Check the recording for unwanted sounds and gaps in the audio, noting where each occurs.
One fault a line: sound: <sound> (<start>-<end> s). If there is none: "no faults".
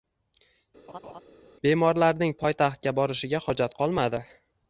sound: laugh (0.9-1.2 s)